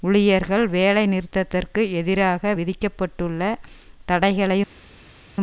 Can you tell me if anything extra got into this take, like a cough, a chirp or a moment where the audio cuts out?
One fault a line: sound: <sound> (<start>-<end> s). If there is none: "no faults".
no faults